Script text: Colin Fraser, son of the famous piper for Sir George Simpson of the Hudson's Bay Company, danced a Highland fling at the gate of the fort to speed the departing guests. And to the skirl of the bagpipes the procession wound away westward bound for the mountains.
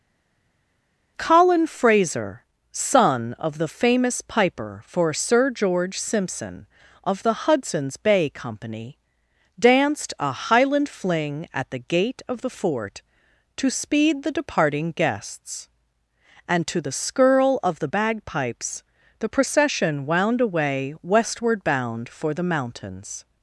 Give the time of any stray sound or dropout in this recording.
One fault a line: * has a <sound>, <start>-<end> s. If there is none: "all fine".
all fine